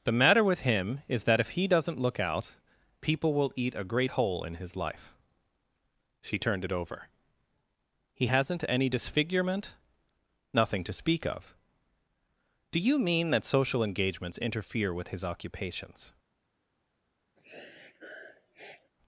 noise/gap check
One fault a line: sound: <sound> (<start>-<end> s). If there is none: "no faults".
sound: sniff (17.4-18.9 s)